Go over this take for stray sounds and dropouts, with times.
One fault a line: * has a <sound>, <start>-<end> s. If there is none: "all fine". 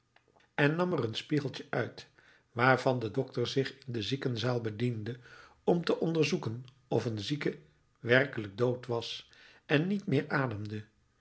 all fine